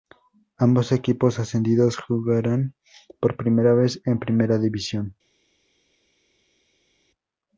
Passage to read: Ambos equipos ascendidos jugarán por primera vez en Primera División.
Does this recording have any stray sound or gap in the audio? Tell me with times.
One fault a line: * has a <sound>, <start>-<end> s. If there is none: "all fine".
all fine